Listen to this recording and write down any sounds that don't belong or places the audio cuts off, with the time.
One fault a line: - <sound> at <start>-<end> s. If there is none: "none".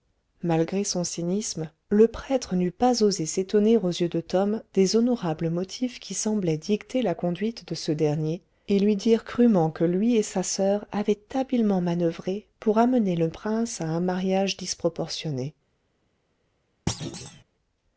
- thud at 16.9-17.4 s